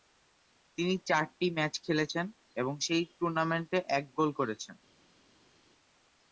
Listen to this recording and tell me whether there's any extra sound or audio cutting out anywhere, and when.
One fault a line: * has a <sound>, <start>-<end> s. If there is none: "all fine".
all fine